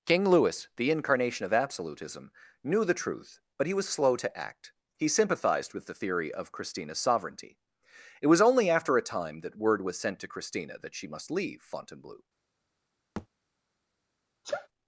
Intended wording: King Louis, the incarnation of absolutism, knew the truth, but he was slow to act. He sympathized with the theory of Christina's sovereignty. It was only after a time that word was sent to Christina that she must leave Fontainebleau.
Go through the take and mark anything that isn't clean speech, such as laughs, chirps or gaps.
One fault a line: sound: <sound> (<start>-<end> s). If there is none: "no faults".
sound: thud (13.2-13.3 s)
sound: sneeze (14.4-14.7 s)